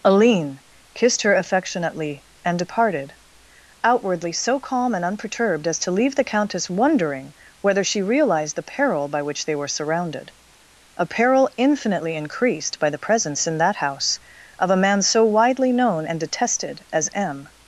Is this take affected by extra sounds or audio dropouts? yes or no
no